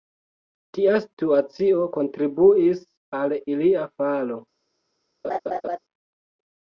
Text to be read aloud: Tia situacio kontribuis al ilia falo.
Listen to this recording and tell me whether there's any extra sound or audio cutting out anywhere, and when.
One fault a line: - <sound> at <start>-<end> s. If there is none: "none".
- laugh at 5.2-5.8 s